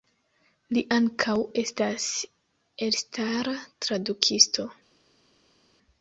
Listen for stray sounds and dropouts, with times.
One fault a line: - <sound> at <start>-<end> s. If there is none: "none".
none